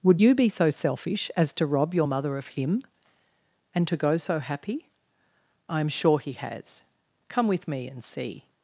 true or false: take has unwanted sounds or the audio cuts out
false